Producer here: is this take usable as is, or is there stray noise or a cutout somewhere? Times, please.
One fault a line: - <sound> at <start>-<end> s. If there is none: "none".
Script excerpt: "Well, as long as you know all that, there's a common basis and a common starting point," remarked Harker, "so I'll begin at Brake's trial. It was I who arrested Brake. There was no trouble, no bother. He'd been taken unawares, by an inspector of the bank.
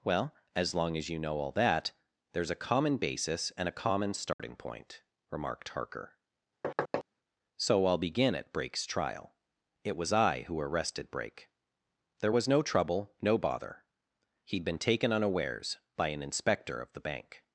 - dropout at 4.3-4.4 s
- thud at 6.6-7.0 s